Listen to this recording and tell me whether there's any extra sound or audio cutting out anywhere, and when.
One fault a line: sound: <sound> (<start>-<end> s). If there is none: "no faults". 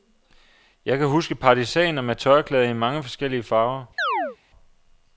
sound: chirp (4.0-4.4 s)